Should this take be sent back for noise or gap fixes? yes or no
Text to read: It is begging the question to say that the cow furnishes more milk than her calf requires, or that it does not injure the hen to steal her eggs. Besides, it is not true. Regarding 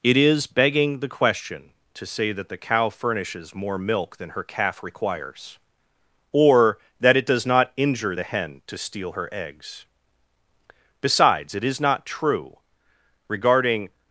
no